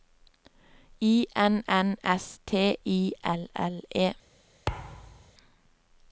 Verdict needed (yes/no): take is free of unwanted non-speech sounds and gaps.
no